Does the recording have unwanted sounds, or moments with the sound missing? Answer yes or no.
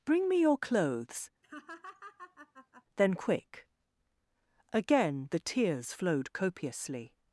yes